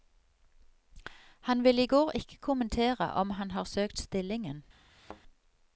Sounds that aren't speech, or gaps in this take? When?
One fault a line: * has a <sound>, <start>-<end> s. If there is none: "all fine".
* has a thud, 4.9-5.2 s